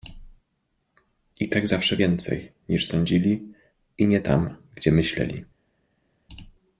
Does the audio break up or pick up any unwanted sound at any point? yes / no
no